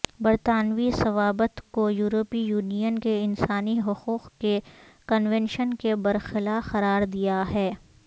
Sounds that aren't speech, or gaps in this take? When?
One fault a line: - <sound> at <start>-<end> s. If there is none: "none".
none